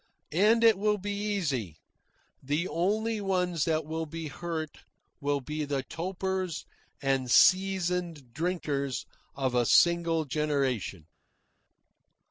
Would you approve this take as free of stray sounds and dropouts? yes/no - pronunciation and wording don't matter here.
yes